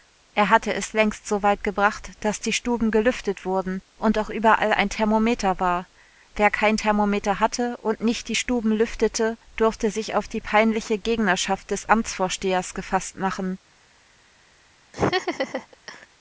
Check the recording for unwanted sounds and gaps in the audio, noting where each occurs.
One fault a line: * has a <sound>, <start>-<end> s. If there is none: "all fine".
* has a laugh, 14.9-16.1 s